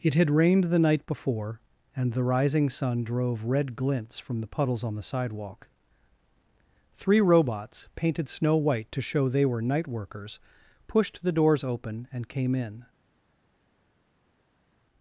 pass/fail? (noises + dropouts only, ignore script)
pass